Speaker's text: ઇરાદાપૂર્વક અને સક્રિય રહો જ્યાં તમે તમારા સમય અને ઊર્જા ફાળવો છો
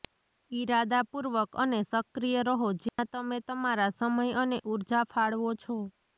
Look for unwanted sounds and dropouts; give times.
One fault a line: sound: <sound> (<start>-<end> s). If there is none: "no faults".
sound: dropout (2.9-3.0 s)